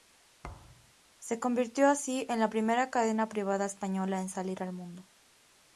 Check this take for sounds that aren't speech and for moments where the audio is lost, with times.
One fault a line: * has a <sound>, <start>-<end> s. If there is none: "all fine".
* has a thud, 0.4-0.9 s